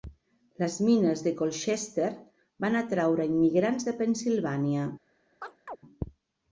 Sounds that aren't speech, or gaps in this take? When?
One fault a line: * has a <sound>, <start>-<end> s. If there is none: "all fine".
* has a chirp, 5.4-5.8 s